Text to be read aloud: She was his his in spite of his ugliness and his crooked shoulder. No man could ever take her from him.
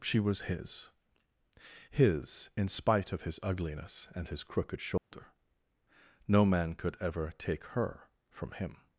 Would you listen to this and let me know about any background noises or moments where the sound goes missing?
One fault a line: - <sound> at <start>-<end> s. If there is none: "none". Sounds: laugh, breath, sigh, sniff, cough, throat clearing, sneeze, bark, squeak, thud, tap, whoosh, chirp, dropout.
- dropout at 5.0-5.1 s